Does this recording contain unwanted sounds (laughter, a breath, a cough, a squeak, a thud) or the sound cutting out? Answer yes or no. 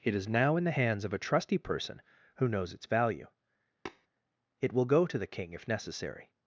yes